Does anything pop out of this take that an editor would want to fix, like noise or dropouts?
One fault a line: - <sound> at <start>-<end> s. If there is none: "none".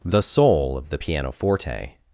none